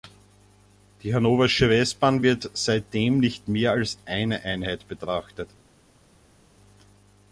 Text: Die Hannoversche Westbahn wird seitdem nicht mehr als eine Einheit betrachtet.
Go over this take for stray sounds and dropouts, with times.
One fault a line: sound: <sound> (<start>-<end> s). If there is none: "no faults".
no faults